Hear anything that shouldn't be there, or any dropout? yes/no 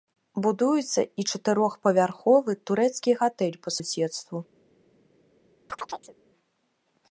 yes